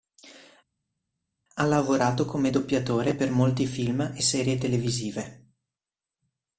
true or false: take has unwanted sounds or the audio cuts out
false